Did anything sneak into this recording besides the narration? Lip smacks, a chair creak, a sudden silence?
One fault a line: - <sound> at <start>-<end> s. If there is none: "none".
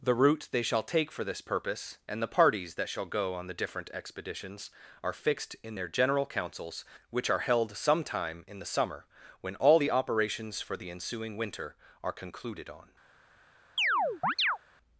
- chirp at 13.8-14.6 s